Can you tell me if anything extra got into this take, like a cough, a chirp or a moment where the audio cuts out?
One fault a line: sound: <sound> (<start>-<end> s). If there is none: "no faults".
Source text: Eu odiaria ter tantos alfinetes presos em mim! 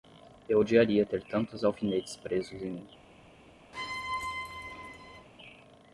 sound: squeak (3.7-5.3 s)